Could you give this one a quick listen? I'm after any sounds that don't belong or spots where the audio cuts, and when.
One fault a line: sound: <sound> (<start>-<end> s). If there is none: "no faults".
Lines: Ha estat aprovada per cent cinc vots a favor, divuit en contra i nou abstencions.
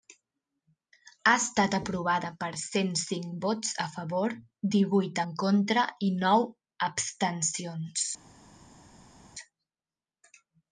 no faults